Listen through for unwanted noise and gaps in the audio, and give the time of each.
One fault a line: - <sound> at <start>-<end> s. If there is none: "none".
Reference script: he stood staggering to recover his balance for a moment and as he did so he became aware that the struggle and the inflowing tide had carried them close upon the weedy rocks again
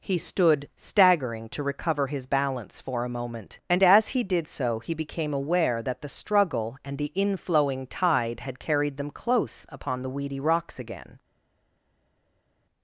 none